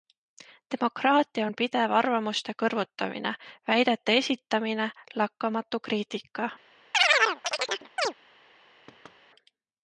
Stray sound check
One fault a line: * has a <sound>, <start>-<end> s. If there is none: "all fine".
* has a chirp, 6.9-8.1 s
* has a thud, 8.9-9.2 s